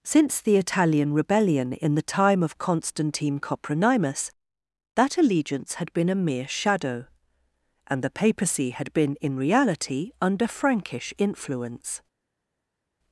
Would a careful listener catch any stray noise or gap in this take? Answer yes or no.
no